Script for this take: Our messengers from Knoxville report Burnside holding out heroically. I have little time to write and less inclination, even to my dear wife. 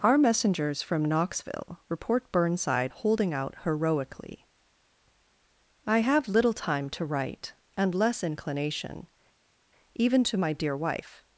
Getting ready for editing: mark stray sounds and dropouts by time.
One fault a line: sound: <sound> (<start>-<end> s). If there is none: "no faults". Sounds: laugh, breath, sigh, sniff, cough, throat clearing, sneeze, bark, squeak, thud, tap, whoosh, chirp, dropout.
no faults